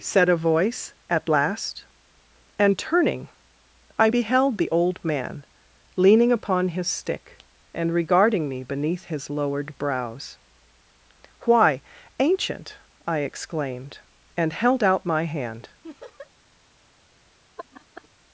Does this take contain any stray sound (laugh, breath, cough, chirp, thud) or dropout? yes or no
yes